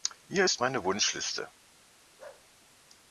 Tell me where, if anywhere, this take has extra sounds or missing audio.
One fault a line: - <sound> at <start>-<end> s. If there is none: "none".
- bark at 2.2-2.5 s